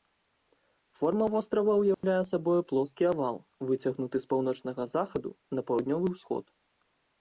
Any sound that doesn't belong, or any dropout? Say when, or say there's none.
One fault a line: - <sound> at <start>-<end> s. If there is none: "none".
- dropout at 1.9-2.0 s